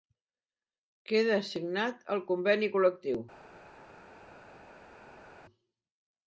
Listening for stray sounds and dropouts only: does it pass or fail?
pass